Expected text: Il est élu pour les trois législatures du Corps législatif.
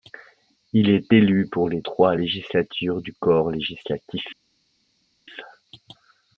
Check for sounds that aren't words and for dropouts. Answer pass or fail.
pass